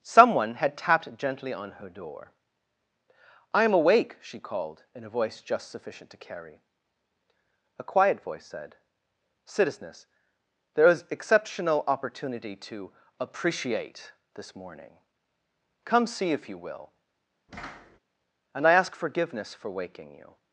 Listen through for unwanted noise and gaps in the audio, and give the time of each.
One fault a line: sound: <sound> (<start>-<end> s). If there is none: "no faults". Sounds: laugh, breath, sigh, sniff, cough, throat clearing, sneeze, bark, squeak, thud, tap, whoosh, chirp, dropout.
sound: thud (17.5-18.0 s)